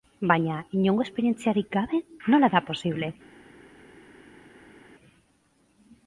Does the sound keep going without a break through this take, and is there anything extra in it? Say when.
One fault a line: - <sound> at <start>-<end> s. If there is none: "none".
none